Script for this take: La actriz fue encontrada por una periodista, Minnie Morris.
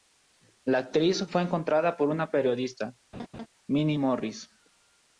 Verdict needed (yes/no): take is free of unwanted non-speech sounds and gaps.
no